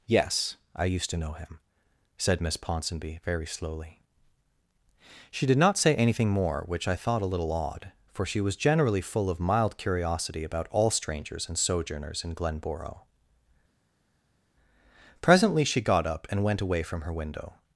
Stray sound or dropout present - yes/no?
no